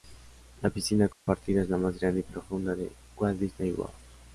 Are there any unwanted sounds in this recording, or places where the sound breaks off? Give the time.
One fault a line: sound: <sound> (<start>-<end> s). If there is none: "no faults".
sound: dropout (1.1-1.3 s)